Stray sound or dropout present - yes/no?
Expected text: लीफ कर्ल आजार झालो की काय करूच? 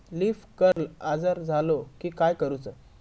yes